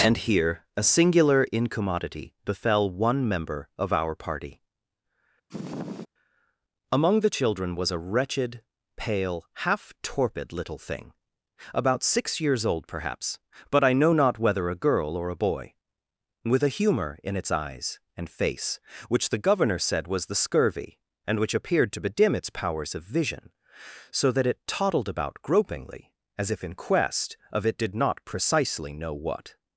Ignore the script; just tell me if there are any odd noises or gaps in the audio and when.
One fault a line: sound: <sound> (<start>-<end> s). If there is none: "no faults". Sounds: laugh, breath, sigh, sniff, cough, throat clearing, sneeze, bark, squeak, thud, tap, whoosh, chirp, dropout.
sound: sniff (5.5-6.1 s)